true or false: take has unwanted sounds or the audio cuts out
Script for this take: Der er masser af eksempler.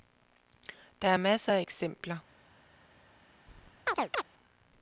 true